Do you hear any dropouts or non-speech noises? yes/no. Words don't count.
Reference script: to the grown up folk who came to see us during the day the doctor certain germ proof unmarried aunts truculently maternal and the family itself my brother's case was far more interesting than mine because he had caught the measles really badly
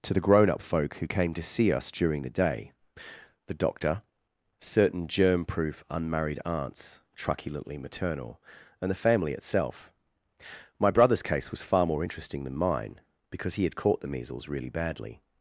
no